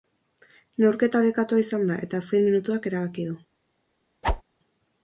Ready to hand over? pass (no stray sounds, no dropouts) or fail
fail